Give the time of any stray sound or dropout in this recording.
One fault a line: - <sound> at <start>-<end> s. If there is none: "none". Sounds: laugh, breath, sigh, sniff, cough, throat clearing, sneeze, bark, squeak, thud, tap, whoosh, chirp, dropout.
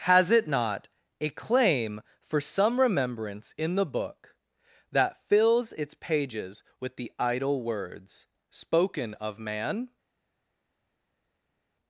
none